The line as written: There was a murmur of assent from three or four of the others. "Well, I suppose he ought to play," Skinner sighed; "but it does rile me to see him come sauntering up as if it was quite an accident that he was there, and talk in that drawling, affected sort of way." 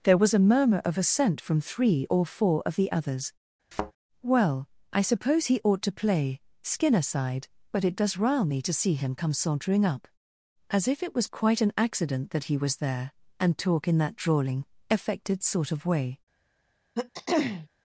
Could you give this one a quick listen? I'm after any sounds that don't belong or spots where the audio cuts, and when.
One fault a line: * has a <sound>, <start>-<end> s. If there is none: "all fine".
* has a thud, 3.7-3.9 s
* has a throat clearing, 16.9-17.7 s